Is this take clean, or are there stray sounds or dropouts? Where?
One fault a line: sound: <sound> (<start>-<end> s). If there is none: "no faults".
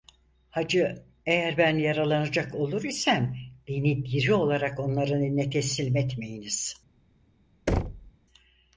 sound: thud (7.7-8.1 s)